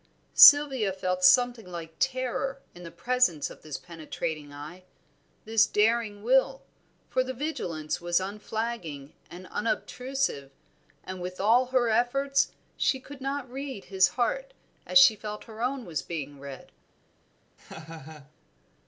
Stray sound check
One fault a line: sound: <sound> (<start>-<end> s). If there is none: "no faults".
sound: laugh (17.6-18.3 s)